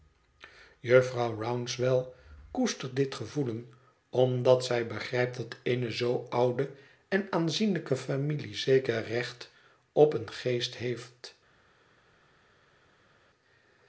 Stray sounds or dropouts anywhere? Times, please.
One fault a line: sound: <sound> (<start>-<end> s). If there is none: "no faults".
no faults